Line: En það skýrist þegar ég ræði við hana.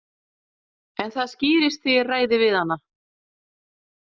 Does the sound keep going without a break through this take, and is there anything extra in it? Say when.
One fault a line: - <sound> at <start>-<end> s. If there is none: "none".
none